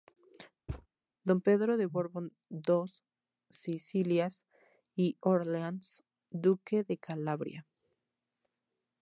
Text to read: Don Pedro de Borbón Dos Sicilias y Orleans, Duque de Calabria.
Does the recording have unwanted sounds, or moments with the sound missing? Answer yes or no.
yes